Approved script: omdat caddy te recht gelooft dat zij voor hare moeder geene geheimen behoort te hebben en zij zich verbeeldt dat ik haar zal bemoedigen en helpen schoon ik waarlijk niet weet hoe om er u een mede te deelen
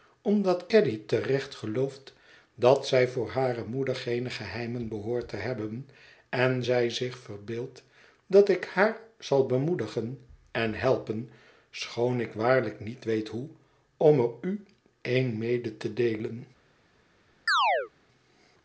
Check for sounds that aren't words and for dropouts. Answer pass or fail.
fail